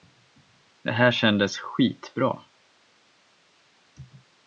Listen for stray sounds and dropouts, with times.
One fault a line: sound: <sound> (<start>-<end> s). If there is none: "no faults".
no faults